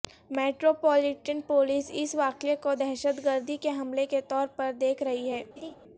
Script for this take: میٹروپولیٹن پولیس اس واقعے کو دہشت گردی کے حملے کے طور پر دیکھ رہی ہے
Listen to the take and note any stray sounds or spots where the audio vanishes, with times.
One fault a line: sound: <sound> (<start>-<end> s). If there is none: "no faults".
sound: laugh (5.6-5.8 s)